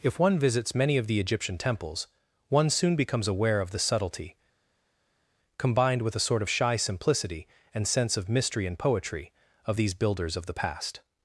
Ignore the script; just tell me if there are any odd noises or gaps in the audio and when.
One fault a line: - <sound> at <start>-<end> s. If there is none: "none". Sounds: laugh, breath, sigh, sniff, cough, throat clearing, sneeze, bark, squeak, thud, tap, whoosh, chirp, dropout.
none